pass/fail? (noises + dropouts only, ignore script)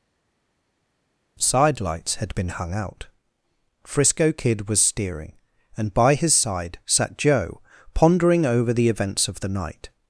pass